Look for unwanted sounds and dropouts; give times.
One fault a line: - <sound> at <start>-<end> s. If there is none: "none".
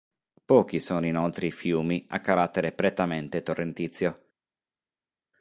none